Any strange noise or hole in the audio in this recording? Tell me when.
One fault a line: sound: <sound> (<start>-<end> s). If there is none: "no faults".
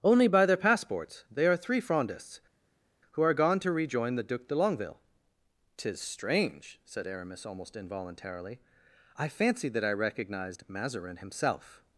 no faults